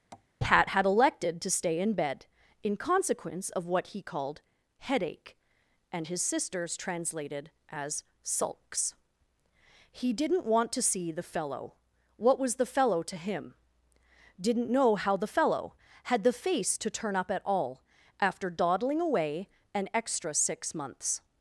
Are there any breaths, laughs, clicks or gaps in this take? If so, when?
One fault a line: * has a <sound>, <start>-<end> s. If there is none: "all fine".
* has a tap, 0.1-0.3 s